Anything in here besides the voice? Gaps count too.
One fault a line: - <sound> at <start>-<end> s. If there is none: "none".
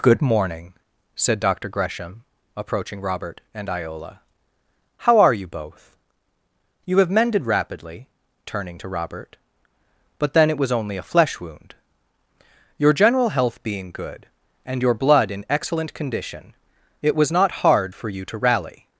none